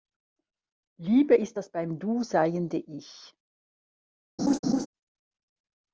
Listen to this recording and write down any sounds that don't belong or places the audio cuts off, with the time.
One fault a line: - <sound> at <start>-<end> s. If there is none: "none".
- laugh at 4.4-4.9 s